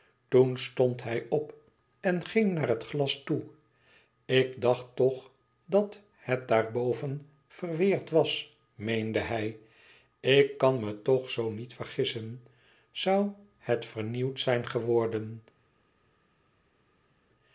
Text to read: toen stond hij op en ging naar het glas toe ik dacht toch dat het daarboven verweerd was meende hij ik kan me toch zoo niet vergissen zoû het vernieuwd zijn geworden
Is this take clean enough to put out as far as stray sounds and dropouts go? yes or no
yes